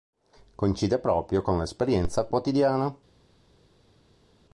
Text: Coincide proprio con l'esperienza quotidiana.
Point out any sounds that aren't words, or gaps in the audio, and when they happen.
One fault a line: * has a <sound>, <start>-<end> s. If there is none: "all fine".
all fine